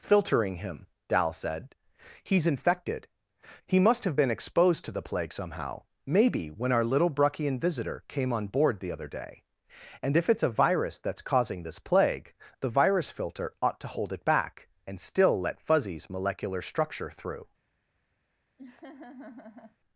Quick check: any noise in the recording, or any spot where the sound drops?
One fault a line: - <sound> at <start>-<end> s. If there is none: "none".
- laugh at 18.6-19.8 s